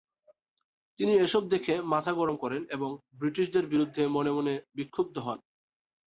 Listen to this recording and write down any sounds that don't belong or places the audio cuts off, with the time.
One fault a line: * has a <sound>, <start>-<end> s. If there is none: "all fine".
all fine